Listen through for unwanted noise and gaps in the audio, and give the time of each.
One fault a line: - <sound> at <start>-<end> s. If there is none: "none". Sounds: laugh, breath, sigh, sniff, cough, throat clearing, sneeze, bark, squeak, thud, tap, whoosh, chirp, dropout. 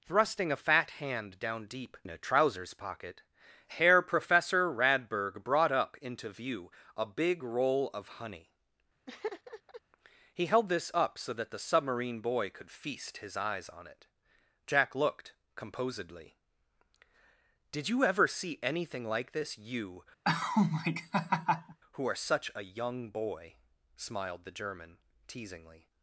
- laugh at 9.1-9.8 s
- laugh at 20.2-21.8 s